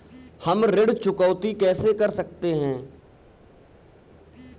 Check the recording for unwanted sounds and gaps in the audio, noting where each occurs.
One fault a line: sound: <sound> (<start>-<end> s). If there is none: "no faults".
no faults